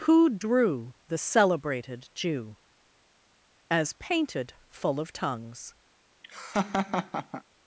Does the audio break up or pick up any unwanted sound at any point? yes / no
yes